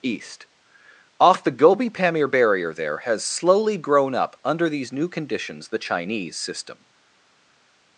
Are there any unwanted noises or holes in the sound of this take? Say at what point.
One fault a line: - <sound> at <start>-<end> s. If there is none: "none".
none